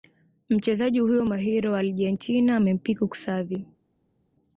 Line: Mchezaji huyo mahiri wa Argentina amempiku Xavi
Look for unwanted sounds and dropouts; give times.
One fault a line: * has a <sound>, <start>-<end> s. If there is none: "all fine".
all fine